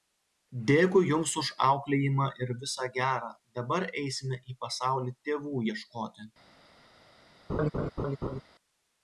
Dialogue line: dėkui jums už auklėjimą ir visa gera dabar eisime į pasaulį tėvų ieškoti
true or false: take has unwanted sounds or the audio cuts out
true